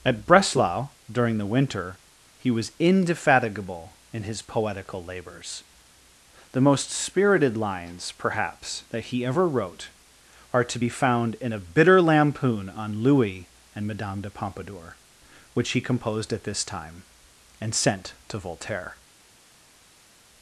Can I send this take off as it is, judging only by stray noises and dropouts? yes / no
yes